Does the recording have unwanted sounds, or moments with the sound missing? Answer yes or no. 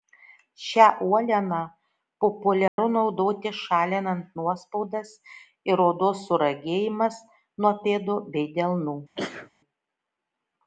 yes